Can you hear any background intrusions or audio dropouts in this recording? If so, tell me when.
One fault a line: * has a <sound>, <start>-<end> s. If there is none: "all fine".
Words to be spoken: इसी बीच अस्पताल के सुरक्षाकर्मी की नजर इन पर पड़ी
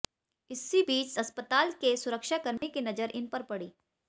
* has a dropout, 2.6-2.6 s